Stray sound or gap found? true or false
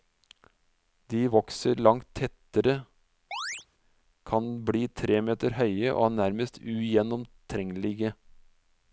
true